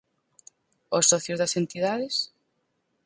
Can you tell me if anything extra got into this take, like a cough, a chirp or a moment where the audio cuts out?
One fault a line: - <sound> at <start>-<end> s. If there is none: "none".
none